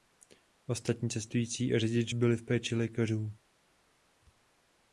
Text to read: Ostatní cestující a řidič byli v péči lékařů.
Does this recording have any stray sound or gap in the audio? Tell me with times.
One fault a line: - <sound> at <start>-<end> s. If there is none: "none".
none